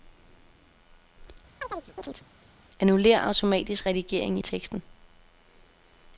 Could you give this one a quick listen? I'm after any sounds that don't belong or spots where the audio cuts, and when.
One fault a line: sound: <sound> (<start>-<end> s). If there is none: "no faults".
sound: chirp (1.6-2.3 s)